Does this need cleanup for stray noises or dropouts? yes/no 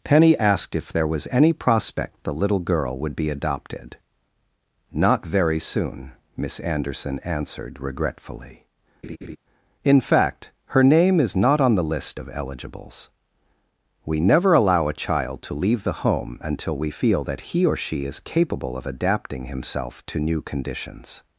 yes